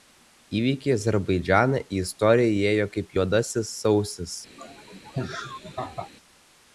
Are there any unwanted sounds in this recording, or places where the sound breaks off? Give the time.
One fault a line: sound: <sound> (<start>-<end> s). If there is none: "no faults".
sound: laugh (4.6-6.1 s)